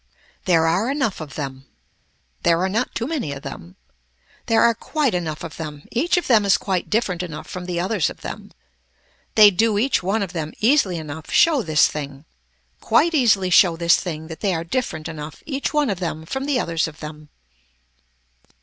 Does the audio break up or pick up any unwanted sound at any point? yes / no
no